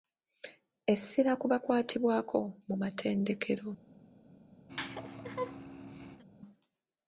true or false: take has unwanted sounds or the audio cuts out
true